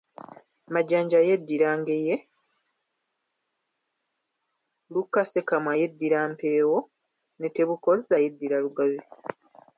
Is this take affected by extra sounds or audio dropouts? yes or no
no